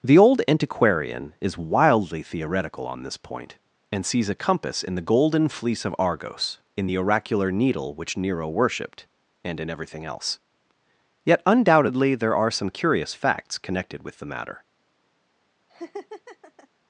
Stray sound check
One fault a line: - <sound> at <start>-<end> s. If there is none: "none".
- laugh at 15.7-16.7 s